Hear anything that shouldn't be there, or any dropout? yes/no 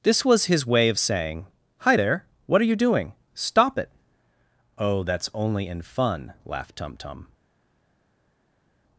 no